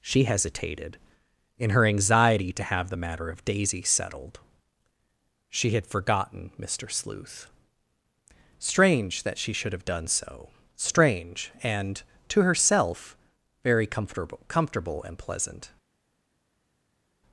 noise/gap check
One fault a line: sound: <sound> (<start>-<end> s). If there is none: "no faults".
no faults